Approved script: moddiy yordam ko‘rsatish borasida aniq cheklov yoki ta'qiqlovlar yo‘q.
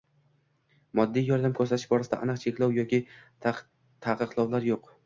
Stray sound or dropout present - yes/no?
no